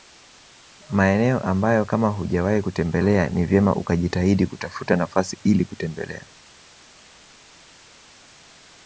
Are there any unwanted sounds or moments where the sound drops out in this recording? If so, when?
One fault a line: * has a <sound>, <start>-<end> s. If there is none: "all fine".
all fine